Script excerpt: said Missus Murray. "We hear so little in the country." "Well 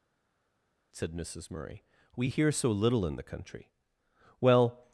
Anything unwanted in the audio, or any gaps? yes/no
no